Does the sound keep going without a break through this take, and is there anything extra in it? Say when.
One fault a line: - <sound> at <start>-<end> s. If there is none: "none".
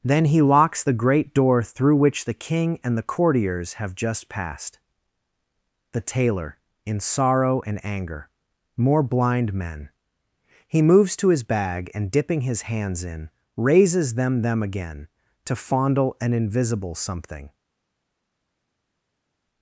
none